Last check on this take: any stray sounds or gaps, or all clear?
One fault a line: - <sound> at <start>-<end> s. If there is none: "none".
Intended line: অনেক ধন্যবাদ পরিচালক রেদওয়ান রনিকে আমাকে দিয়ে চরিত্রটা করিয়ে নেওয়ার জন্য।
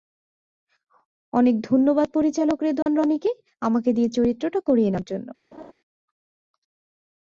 - dropout at 2.8-2.9 s
- laugh at 5.5-5.7 s